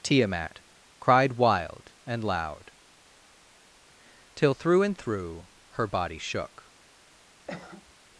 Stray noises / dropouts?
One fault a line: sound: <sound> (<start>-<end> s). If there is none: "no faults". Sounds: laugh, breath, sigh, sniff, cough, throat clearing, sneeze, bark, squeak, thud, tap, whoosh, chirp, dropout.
sound: cough (7.5-7.9 s)